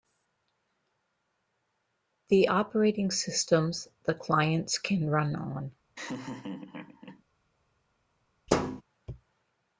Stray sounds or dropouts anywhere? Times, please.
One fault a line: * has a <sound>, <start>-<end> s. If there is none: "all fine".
* has a laugh, 6.0-7.2 s
* has a thud, 8.5-8.8 s